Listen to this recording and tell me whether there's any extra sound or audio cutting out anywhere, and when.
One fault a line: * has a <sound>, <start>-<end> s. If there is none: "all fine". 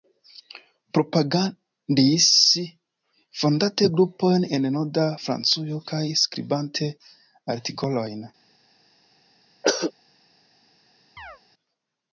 * has a throat clearing, 9.6-9.9 s
* has a chirp, 11.2-11.4 s